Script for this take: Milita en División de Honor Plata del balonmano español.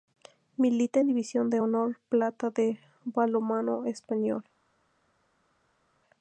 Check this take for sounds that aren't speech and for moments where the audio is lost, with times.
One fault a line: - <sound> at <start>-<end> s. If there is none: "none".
none